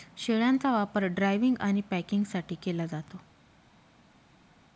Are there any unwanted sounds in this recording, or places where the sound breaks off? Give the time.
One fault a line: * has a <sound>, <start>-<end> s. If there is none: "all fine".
all fine